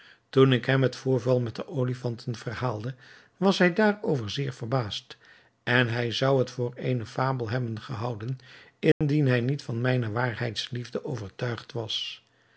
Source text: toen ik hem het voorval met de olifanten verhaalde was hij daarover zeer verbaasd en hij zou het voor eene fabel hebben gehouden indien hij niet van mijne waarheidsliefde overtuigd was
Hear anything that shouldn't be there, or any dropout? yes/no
yes